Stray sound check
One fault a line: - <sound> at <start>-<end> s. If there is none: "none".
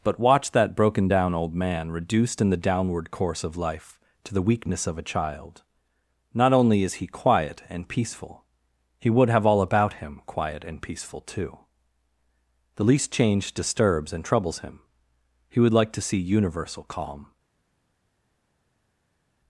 none